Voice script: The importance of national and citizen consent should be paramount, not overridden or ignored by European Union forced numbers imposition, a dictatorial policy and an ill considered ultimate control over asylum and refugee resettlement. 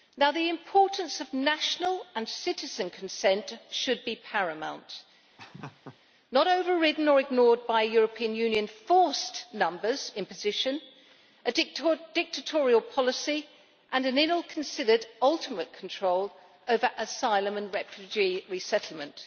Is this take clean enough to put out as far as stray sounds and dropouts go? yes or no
no